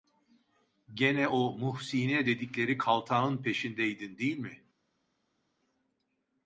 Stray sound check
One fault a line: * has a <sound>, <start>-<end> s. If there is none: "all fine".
all fine